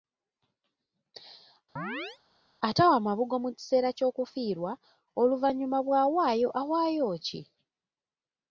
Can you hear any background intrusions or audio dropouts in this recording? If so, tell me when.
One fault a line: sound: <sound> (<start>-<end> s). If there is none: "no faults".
sound: chirp (1.8-2.2 s)